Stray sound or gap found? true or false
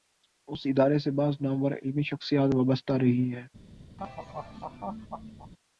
true